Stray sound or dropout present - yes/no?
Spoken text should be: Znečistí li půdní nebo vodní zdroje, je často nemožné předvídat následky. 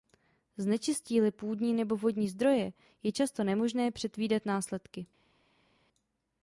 no